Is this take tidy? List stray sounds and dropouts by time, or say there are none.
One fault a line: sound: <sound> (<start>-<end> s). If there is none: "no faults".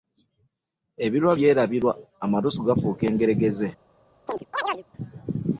sound: chirp (4.3-4.8 s)